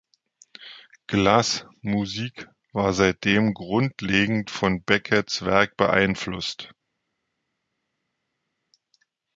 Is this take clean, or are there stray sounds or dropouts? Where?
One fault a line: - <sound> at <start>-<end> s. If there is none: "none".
none